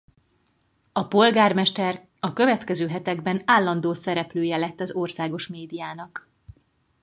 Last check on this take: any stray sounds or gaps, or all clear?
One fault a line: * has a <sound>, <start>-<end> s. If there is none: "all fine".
all fine